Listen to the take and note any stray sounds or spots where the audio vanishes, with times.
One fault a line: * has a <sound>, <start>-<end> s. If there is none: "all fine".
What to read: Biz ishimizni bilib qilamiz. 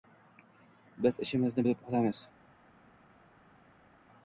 all fine